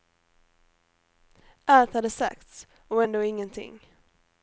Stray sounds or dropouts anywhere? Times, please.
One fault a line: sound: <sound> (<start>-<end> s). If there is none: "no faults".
no faults